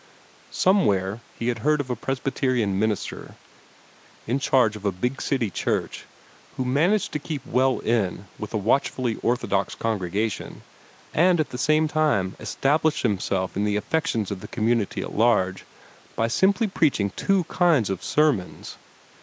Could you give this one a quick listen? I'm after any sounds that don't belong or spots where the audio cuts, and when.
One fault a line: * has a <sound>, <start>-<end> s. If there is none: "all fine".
all fine